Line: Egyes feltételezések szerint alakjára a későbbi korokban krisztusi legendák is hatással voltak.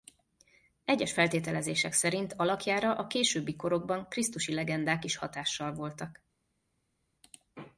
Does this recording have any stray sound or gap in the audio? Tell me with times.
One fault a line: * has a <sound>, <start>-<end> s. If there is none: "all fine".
all fine